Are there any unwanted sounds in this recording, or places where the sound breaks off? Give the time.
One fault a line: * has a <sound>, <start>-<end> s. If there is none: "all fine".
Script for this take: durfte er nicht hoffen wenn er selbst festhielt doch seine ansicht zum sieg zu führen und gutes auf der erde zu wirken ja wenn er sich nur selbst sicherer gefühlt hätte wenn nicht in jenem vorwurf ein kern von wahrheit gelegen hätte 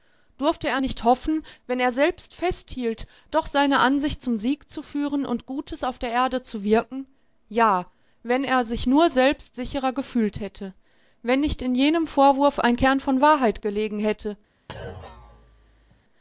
* has a thud, 14.7-16.0 s